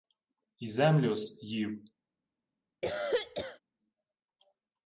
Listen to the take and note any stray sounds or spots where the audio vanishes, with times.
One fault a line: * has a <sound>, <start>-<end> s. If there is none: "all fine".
* has a cough, 2.8-3.6 s